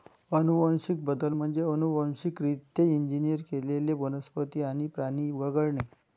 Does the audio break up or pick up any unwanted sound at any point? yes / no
no